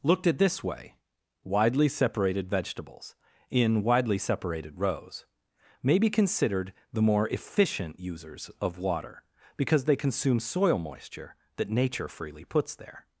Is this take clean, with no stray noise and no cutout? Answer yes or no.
yes